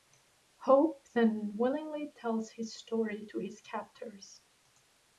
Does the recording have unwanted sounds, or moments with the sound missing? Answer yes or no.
no